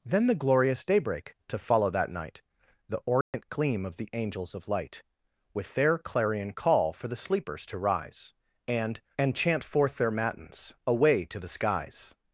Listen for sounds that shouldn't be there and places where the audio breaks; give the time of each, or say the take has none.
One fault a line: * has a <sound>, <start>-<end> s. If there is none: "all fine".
* has a dropout, 3.2-3.3 s